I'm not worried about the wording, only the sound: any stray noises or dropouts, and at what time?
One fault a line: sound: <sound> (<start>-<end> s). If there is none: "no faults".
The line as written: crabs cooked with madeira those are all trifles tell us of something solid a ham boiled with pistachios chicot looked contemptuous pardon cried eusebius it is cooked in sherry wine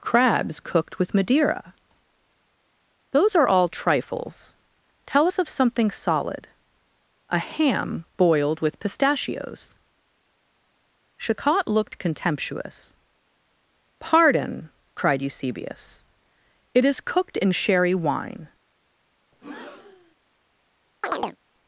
sound: breath (19.3-20.2 s)
sound: chirp (21.0-21.4 s)